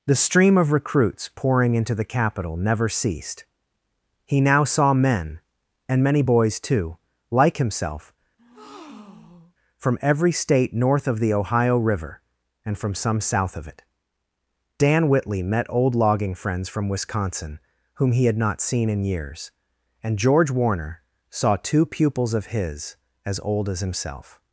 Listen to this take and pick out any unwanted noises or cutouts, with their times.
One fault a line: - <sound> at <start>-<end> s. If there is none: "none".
- breath at 8.4-9.6 s